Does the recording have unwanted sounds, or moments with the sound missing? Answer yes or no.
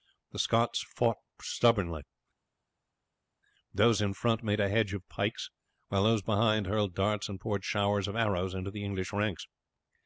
no